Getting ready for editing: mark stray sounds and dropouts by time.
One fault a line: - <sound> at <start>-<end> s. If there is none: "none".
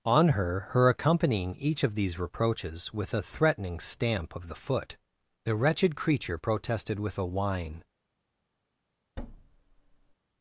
- thud at 9.2-10.1 s